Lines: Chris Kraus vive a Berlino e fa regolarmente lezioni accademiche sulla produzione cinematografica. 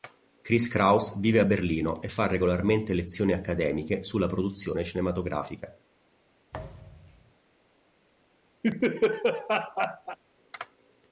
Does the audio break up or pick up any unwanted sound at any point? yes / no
yes